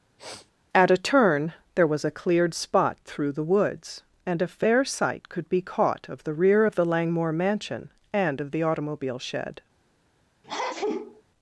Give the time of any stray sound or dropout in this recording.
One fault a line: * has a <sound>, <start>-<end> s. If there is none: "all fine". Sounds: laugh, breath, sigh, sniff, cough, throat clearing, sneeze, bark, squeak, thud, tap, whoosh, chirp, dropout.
* has a sniff, 0.2-0.5 s
* has a sneeze, 10.4-11.2 s